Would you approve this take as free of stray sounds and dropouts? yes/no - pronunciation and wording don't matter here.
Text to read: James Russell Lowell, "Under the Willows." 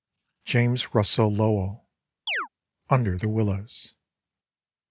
no